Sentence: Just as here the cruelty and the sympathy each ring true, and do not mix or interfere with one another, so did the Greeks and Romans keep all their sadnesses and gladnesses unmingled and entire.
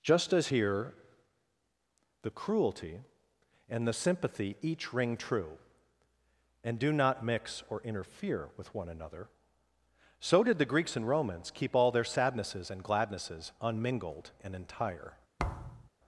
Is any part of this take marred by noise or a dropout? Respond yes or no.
yes